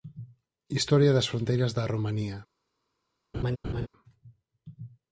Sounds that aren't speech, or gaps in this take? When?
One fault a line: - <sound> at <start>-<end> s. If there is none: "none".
- laugh at 3.3-3.9 s